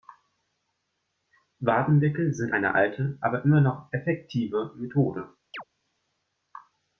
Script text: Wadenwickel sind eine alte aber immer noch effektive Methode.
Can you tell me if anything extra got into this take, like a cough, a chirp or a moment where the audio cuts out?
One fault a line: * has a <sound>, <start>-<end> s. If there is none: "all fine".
* has a chirp, 5.5-5.6 s